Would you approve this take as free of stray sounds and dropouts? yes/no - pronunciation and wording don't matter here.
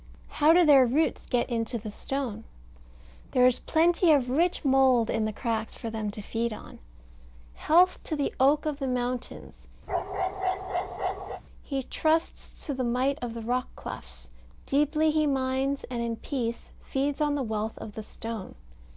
no